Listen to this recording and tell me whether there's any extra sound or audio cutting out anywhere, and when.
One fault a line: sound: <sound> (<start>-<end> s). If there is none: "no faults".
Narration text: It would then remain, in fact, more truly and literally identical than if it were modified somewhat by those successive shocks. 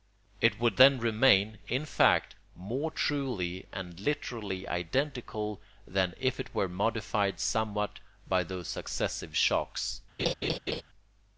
sound: laugh (10.2-10.8 s)